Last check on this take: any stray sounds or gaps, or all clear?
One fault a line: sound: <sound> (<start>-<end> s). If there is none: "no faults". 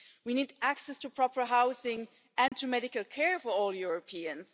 sound: dropout (2.5-2.5 s)